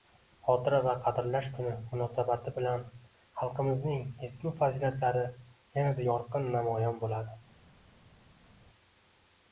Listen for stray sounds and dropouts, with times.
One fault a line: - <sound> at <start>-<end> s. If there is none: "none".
none